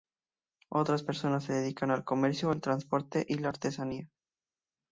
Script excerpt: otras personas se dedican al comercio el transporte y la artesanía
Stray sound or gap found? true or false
false